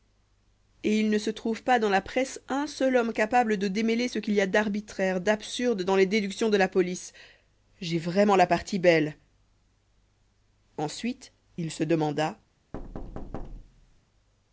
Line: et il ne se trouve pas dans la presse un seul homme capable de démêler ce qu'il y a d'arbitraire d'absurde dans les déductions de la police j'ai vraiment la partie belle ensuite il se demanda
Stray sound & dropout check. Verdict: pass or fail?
fail